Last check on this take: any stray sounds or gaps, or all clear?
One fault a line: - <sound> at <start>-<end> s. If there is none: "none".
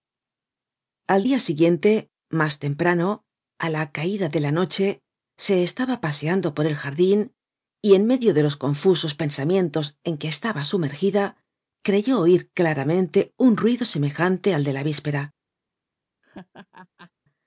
- laugh at 16.2-17.1 s